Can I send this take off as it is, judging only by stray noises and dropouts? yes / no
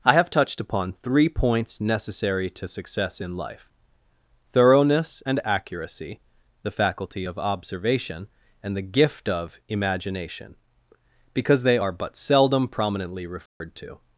no